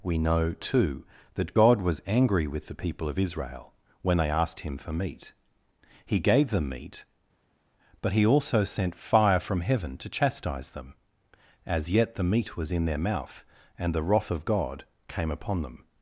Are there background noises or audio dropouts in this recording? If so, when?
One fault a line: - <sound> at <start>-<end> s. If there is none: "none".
none